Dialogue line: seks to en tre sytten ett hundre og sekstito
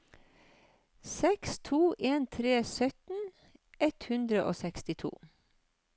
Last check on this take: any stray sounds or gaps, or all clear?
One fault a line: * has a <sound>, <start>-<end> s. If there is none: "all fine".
all fine